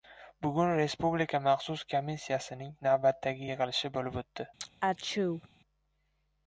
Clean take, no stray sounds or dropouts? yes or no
no